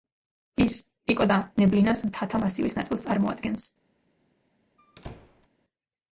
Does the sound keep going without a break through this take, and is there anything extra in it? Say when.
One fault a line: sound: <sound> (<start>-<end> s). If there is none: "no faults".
sound: squeak (4.8-5.5 s)